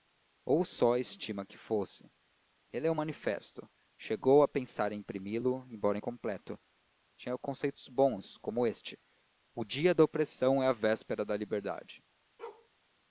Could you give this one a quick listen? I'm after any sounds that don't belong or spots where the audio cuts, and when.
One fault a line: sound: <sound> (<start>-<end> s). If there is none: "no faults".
sound: bark (12.4-12.7 s)